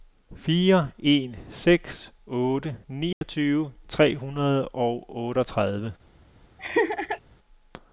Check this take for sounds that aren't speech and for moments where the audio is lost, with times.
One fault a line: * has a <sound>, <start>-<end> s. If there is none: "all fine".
* has a dropout, 3.1-3.2 s
* has a laugh, 6.6-7.2 s